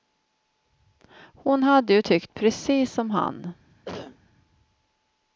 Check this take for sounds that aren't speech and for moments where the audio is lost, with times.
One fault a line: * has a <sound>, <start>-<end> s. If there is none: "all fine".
* has a cough, 3.9-4.2 s